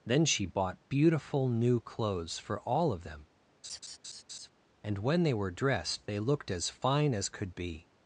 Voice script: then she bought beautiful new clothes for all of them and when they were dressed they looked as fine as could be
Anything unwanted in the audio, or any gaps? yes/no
yes